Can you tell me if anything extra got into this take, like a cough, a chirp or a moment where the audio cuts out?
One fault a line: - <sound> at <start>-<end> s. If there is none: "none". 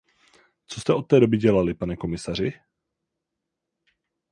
none